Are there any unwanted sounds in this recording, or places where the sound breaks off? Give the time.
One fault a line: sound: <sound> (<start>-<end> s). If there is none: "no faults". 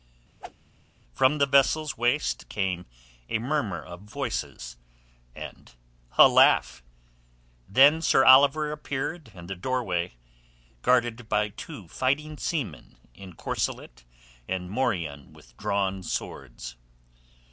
sound: whoosh (0.4-0.5 s)